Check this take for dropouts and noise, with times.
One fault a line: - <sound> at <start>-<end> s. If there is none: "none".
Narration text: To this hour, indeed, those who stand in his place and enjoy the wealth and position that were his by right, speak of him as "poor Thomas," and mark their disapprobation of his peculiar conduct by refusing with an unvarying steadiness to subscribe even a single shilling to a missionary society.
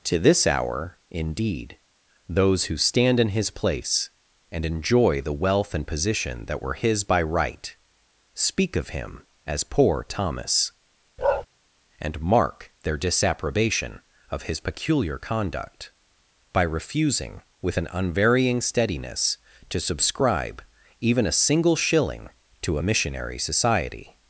- bark at 11.2-11.5 s